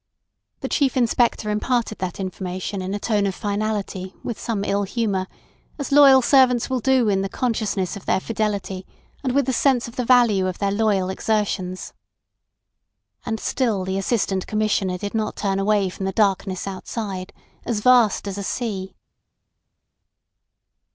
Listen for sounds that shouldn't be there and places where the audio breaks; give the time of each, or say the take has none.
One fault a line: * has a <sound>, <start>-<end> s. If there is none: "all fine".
all fine